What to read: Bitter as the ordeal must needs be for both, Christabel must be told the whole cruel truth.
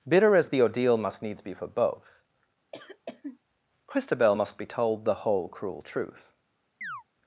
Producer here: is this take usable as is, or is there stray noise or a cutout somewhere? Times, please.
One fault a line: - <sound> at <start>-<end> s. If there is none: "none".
- cough at 2.7-3.4 s
- chirp at 6.8-7.0 s